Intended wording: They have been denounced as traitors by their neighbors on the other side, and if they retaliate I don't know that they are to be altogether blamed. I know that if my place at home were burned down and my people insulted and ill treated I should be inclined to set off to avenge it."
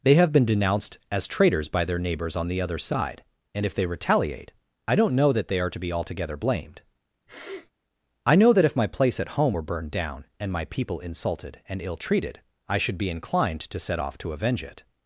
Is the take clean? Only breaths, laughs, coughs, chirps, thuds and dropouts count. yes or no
no